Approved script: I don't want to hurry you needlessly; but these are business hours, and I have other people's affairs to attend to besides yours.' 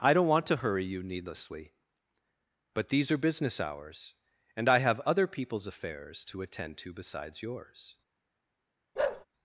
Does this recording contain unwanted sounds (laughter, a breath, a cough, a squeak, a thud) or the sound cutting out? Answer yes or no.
yes